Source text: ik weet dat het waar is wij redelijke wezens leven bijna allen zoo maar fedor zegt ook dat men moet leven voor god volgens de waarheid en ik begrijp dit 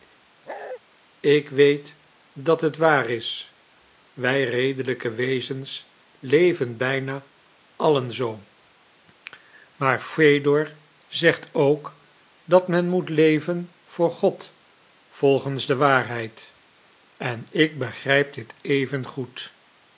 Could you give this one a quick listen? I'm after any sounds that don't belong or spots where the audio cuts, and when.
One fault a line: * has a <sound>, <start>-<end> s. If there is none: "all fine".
* has a bark, 0.5-0.8 s